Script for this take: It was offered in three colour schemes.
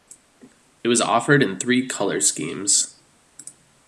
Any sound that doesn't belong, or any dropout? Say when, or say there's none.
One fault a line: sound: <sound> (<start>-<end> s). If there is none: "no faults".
no faults